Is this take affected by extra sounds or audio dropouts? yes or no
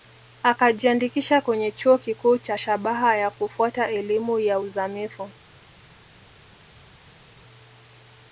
no